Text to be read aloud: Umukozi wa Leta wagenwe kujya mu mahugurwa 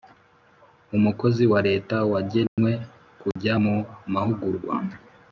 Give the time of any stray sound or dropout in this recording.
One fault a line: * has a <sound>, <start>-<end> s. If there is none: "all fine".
* has a dropout, 2.5-2.6 s
* has a dropout, 3.3-3.4 s